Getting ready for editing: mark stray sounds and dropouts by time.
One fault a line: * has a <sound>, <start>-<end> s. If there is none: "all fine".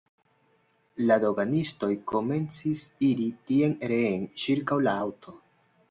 all fine